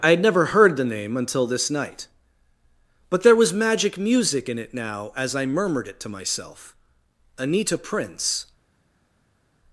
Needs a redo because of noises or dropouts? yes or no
no